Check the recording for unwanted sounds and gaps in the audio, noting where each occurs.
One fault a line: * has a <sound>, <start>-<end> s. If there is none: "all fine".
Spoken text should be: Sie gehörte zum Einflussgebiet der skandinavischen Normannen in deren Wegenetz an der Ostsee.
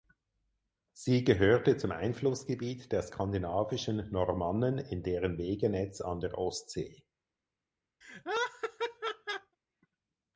* has a laugh, 8.0-9.6 s